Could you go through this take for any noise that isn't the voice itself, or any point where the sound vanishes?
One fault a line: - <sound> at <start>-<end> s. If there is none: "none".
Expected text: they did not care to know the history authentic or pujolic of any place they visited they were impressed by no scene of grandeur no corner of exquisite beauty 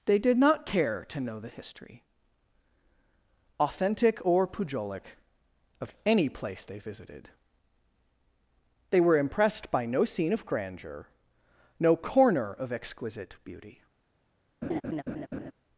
- laugh at 14.6-15.5 s